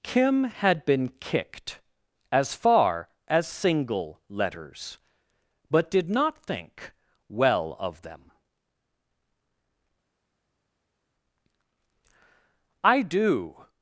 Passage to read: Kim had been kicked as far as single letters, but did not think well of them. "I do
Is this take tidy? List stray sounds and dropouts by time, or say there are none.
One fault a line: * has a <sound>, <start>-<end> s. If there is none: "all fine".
all fine